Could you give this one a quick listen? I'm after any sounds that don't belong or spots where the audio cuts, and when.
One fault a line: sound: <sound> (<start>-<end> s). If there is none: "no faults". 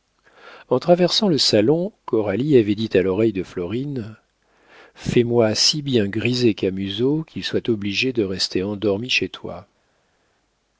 no faults